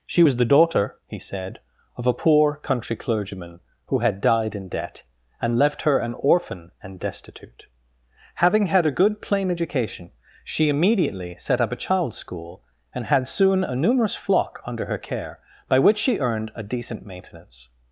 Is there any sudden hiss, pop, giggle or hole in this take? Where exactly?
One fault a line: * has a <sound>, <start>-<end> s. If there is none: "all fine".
all fine